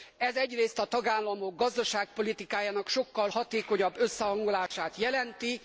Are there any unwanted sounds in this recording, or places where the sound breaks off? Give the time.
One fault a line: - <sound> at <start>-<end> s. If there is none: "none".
- dropout at 4.7-4.7 s